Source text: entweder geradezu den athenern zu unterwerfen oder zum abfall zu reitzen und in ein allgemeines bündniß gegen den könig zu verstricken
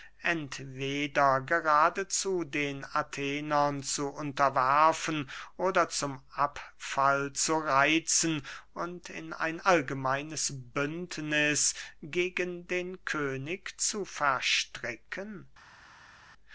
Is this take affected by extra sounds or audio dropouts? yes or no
no